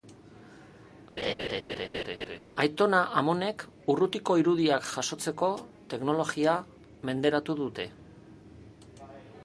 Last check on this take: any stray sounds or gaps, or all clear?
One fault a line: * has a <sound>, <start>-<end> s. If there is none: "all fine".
* has a laugh, 1.2-2.4 s